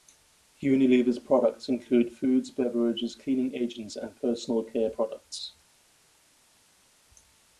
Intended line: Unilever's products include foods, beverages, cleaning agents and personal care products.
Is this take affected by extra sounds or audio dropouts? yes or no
no